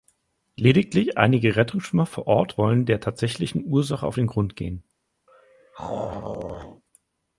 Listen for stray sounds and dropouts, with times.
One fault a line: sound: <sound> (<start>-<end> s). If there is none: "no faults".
sound: throat clearing (5.3-6.8 s)